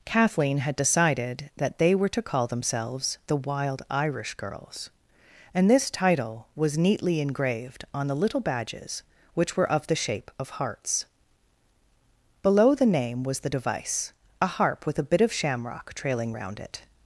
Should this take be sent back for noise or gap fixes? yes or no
no